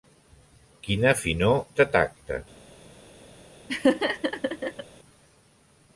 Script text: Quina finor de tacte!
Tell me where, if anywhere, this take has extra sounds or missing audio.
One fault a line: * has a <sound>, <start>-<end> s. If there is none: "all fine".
* has a laugh, 3.7-4.8 s